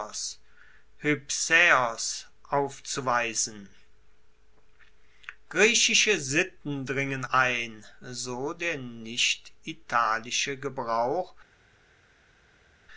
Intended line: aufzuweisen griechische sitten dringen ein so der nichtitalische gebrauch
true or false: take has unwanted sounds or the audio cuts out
false